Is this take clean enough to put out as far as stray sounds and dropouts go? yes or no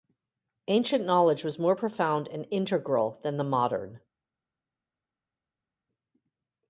yes